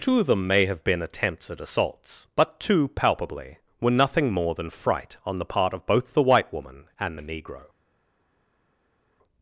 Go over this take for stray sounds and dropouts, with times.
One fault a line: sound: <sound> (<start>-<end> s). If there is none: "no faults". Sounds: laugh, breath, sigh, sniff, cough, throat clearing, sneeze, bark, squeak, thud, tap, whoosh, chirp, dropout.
no faults